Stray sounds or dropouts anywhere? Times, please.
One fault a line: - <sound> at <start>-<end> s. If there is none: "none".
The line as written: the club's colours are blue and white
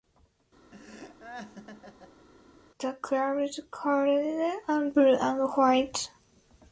- laugh at 0.7-2.3 s